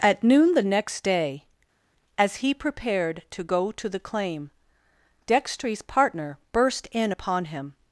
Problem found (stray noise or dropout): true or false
false